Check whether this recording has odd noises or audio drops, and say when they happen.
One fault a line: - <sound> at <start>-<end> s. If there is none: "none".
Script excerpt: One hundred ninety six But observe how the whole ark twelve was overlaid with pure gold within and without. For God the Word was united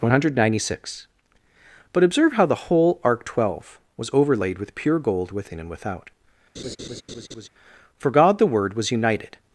- laugh at 6.6-7.5 s